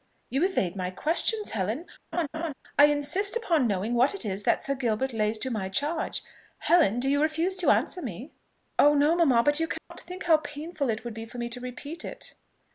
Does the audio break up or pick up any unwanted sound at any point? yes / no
yes